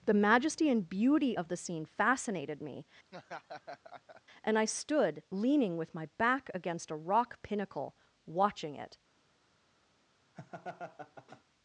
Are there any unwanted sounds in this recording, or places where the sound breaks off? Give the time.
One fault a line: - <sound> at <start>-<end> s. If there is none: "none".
- laugh at 3.1-4.2 s
- laugh at 10.3-11.4 s